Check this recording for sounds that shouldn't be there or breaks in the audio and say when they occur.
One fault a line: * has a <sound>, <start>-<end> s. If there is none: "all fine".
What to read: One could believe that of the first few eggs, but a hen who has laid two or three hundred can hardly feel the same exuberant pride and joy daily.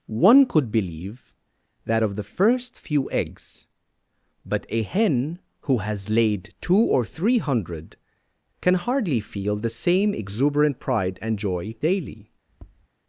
* has a tap, 12.5-12.9 s